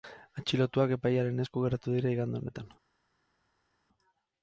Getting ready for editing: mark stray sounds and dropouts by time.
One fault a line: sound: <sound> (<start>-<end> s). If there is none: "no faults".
no faults